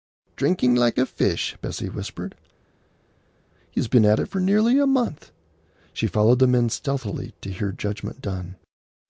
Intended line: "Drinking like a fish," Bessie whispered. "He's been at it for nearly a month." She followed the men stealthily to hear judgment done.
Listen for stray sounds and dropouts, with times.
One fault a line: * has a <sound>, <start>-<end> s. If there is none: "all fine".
all fine